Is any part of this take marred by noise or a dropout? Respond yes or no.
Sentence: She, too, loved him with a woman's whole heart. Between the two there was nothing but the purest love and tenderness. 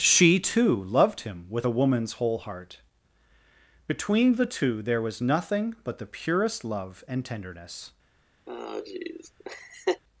yes